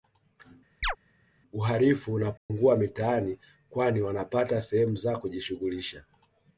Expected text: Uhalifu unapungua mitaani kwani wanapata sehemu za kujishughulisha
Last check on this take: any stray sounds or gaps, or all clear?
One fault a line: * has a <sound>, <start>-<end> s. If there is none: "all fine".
* has a chirp, 0.8-1.0 s
* has a dropout, 2.4-2.5 s